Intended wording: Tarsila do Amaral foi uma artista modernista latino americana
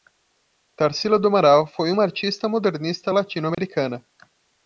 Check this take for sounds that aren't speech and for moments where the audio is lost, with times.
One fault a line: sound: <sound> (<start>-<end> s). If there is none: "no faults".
sound: dropout (3.5-3.6 s)